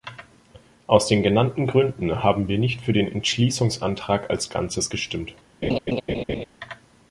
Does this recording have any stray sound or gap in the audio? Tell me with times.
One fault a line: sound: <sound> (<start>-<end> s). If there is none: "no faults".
sound: laugh (5.6-6.4 s)